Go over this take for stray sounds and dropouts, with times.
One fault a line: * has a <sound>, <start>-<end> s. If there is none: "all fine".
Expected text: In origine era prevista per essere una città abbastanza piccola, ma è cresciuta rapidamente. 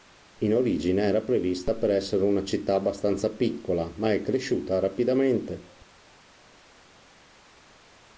all fine